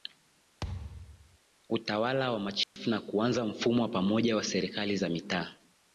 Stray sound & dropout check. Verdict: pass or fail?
fail